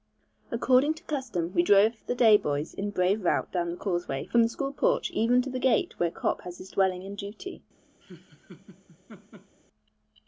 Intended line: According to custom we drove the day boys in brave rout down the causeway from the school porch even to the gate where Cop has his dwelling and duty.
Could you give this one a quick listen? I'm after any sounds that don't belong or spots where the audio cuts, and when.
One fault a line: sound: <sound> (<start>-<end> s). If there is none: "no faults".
sound: laugh (8.0-9.6 s)